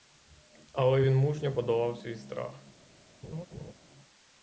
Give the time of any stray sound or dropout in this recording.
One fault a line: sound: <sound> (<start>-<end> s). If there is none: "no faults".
sound: laugh (3.2-3.7 s)